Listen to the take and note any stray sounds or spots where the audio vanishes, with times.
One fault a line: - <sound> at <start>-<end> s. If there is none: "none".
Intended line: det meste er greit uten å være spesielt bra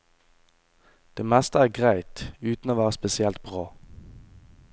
none